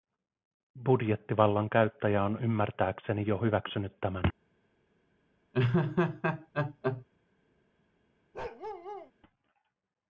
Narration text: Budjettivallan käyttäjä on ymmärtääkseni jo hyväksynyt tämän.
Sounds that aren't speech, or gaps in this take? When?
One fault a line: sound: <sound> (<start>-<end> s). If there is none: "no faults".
sound: laugh (5.5-7.0 s)
sound: bark (8.3-9.1 s)